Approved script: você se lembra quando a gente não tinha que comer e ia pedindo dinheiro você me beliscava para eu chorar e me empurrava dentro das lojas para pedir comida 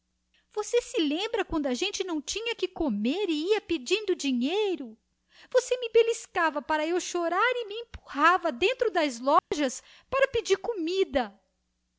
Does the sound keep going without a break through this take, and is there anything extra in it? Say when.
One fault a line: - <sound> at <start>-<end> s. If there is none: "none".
- dropout at 9.4-9.5 s